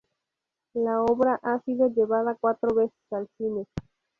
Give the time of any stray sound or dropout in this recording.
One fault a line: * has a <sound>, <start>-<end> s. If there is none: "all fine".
* has a dropout, 2.9-3.1 s